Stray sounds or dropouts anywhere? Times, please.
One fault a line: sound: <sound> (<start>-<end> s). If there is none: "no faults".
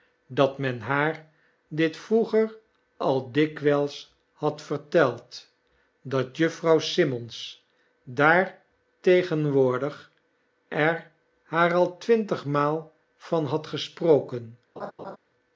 sound: laugh (14.8-15.2 s)